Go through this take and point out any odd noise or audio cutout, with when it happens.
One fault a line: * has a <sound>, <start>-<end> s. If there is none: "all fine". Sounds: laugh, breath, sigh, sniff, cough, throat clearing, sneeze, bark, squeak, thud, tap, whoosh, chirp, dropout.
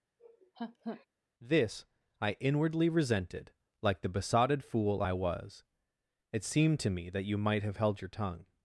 * has a laugh, 0.2-1.1 s